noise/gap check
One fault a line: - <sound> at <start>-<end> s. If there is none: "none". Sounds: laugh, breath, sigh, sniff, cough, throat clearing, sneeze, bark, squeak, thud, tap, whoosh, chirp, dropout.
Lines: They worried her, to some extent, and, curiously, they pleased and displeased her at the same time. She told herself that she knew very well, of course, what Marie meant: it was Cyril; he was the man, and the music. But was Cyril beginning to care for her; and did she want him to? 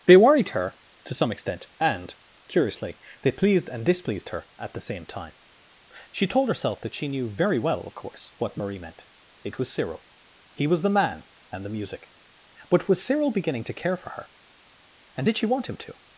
none